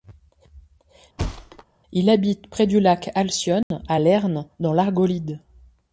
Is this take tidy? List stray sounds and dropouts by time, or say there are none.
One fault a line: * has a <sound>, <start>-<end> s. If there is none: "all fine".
* has a thud, 1.2-1.6 s
* has a dropout, 3.6-3.7 s